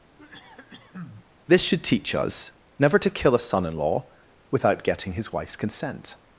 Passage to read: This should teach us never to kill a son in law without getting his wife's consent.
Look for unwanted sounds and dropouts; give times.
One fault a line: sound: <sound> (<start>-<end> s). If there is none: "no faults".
sound: cough (0.2-1.3 s)